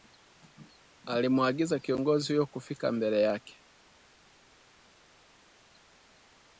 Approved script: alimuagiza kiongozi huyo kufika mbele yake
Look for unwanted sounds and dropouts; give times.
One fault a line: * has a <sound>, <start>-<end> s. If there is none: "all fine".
all fine